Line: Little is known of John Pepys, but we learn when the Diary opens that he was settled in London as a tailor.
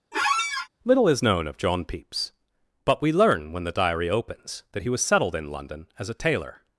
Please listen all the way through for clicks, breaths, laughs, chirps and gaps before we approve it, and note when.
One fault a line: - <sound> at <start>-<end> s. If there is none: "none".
- squeak at 0.1-0.7 s